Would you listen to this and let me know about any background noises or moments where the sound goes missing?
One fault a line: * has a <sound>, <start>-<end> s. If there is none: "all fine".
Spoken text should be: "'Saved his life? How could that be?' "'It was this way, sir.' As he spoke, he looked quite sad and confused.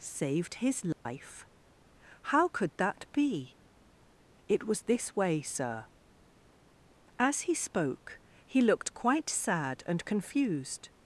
* has a dropout, 0.9-1.1 s